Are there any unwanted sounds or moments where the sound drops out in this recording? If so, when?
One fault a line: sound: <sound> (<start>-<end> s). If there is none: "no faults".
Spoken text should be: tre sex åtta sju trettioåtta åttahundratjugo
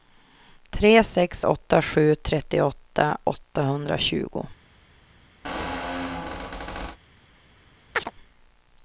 sound: squeak (5.4-7.0 s)
sound: chirp (7.9-8.1 s)